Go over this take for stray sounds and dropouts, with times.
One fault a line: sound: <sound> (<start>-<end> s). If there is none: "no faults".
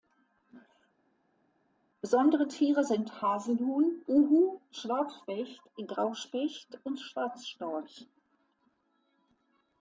no faults